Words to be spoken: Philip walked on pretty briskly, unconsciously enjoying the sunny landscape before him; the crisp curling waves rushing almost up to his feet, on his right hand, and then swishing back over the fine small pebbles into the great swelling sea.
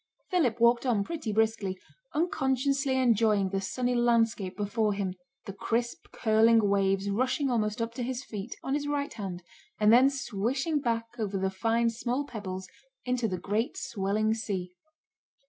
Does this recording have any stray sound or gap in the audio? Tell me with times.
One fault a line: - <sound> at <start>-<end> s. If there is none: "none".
none